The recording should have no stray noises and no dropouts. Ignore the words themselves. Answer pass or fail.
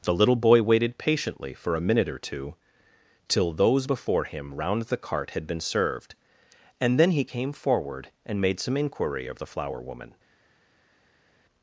pass